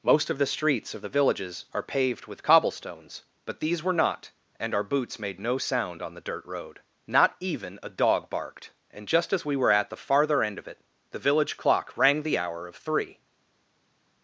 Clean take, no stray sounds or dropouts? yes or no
yes